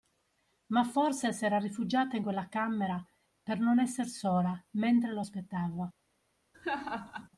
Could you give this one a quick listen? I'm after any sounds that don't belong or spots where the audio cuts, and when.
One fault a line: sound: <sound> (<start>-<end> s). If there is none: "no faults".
sound: laugh (6.5-7.3 s)